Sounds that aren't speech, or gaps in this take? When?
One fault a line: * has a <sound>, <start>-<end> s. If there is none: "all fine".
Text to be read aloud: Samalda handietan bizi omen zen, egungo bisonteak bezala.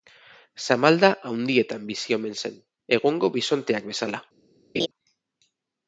* has a laugh, 4.7-4.9 s